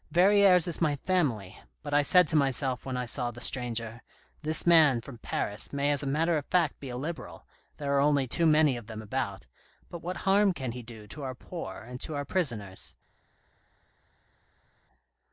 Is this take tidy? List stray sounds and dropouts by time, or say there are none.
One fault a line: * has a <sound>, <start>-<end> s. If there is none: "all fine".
all fine